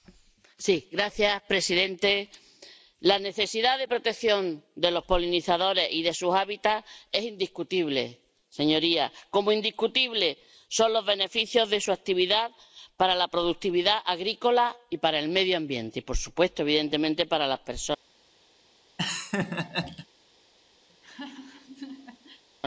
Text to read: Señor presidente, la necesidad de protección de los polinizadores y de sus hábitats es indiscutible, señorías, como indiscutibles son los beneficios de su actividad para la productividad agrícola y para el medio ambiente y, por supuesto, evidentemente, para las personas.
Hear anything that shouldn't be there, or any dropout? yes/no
yes